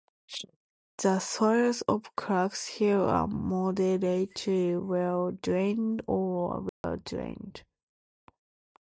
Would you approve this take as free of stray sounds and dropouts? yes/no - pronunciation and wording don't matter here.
no